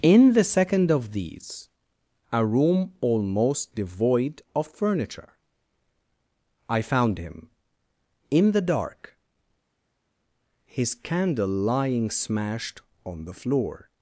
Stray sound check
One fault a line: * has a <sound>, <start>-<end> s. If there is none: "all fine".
all fine